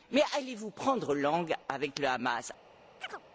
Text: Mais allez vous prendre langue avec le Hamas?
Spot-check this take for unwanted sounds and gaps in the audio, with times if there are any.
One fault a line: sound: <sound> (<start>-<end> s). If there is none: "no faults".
sound: chirp (3.0-3.2 s)